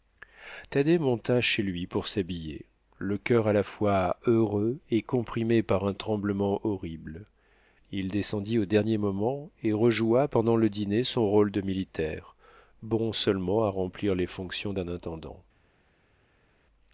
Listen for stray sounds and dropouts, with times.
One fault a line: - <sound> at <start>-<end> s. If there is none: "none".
none